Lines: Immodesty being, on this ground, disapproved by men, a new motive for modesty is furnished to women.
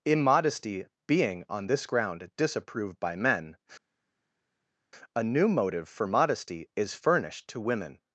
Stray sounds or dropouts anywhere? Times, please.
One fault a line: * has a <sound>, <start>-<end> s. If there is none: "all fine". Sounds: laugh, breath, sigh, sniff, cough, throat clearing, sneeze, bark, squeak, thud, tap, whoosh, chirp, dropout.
all fine